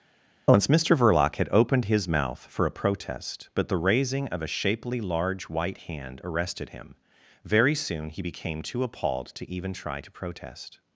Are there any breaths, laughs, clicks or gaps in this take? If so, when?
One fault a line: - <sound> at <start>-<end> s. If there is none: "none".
none